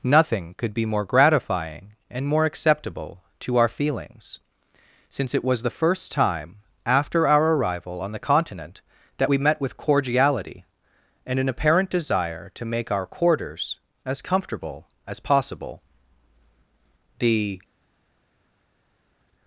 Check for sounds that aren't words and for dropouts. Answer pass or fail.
pass